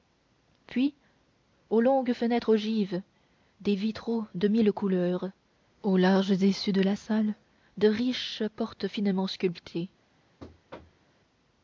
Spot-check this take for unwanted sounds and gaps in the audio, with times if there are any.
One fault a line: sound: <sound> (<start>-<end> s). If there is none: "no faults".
sound: thud (10.4-11.1 s)